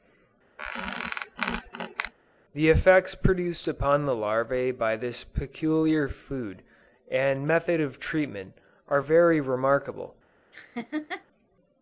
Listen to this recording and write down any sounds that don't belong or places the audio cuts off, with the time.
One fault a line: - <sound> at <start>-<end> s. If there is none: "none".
- squeak at 0.6-2.1 s
- laugh at 10.5-11.2 s